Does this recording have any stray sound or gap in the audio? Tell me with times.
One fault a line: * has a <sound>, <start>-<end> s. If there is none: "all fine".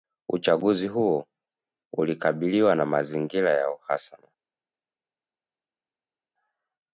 all fine